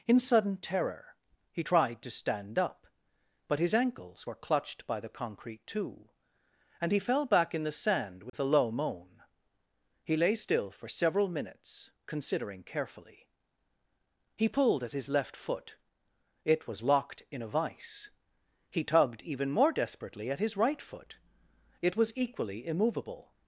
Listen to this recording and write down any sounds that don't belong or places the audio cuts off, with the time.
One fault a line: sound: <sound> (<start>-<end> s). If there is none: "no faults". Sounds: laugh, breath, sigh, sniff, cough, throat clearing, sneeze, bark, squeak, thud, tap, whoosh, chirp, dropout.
sound: dropout (8.3-8.3 s)